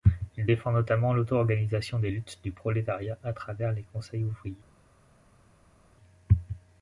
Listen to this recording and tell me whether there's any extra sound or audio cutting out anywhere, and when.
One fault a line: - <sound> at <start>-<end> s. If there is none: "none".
none